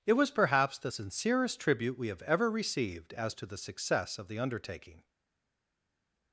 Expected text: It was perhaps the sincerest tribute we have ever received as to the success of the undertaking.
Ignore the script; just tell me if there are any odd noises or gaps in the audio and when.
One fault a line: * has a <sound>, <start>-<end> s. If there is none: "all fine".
all fine